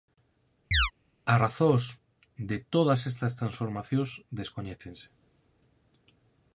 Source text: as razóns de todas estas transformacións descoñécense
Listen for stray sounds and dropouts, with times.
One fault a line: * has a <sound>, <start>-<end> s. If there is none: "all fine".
* has a chirp, 0.7-0.9 s